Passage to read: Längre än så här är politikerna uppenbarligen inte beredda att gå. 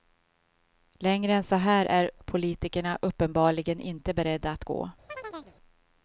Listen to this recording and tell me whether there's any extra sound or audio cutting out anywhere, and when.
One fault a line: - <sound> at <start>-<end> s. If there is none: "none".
- chirp at 5.1-5.6 s